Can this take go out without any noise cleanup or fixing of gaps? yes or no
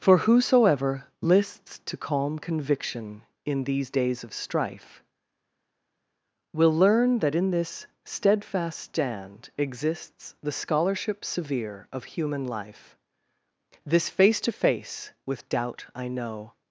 yes